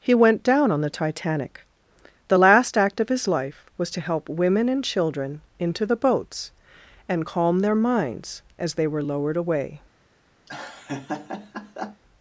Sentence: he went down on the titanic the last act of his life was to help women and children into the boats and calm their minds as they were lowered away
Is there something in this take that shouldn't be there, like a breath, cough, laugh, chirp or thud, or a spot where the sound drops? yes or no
yes